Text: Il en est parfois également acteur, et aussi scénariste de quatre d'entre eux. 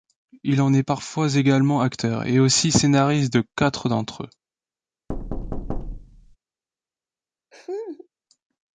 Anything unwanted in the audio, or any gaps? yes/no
yes